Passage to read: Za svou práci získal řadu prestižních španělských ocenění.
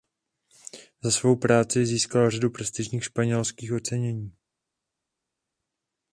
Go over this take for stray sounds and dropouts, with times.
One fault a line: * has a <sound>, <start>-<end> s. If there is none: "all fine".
all fine